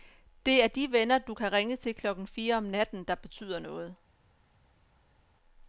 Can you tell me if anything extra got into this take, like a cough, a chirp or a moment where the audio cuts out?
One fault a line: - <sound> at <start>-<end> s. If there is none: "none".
none